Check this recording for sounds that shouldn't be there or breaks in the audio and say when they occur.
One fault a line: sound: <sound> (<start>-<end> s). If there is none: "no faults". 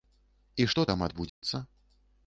sound: dropout (1.3-1.4 s)